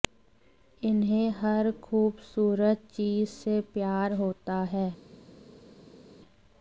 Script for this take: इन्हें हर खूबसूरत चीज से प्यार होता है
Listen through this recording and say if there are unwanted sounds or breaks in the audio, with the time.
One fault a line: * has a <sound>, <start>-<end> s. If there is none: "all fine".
all fine